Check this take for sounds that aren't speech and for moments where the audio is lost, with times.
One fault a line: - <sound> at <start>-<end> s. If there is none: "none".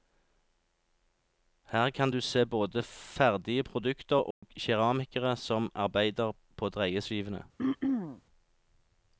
- dropout at 4.3-4.4 s
- throat clearing at 7.6-8.2 s